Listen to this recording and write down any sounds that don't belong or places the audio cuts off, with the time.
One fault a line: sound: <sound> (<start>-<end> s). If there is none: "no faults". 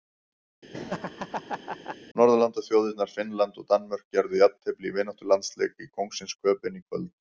sound: laugh (0.7-2.0 s)